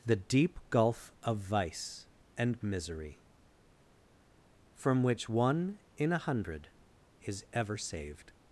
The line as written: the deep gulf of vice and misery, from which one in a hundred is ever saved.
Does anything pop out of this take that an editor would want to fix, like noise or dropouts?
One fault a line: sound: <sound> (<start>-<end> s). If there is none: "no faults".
no faults